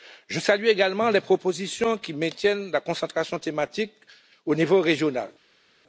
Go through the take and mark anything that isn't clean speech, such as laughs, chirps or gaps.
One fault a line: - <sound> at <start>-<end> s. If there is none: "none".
none